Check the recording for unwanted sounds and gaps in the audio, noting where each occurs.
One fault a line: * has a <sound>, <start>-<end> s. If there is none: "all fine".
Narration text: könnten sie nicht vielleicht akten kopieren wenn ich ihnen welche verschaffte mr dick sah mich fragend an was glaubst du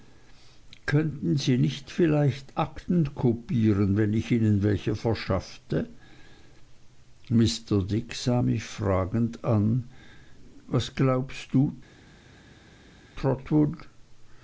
all fine